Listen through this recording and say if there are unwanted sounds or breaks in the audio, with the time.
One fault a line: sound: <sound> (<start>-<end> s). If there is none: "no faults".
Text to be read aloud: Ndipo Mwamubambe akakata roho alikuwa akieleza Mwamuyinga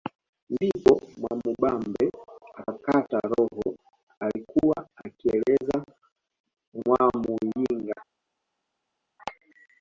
no faults